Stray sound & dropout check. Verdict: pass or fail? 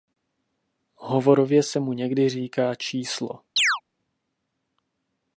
fail